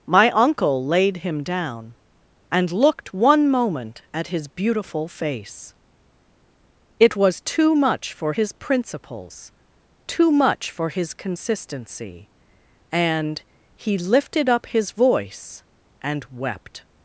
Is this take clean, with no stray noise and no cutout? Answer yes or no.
yes